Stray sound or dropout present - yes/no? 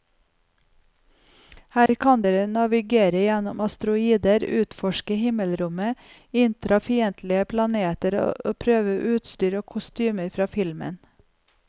yes